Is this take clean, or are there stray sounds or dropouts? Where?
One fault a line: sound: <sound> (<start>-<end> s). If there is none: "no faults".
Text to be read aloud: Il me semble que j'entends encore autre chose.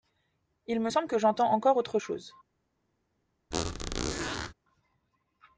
sound: squeak (3.5-4.5 s)